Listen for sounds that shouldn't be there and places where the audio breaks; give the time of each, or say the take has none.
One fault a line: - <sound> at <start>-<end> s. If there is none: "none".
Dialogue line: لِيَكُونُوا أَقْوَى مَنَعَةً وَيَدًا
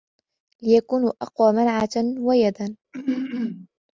- throat clearing at 2.9-3.7 s